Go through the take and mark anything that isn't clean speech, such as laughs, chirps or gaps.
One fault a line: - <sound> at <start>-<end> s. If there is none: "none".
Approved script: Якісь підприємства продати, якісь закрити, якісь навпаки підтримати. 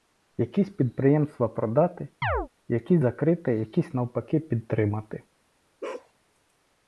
- chirp at 2.2-2.5 s
- bark at 5.8-6.1 s